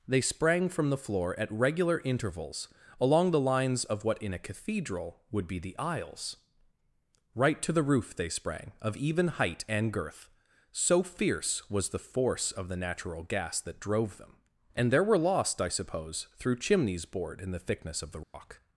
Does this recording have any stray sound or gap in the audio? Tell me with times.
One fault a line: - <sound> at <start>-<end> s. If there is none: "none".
- dropout at 18.2-18.3 s